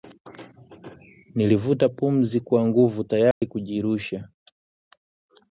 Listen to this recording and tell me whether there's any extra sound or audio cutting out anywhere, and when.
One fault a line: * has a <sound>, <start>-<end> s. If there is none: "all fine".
* has a dropout, 3.3-3.4 s